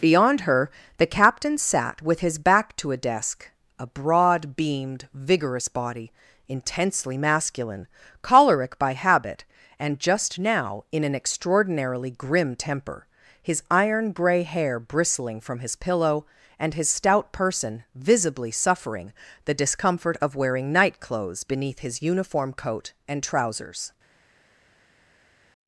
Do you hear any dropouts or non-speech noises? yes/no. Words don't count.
no